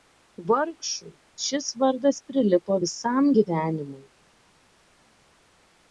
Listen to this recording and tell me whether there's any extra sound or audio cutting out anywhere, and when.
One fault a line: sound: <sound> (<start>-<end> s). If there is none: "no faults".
no faults